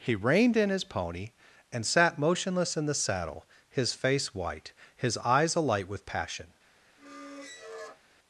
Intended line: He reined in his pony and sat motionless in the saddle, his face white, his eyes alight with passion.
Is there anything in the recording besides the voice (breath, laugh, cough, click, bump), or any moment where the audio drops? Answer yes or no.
yes